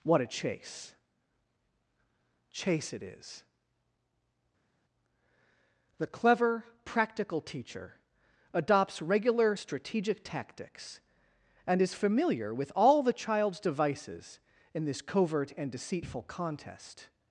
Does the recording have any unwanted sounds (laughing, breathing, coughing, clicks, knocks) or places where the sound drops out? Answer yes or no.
no